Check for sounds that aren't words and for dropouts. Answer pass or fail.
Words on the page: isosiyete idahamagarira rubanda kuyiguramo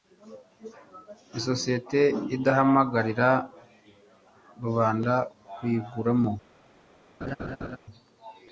fail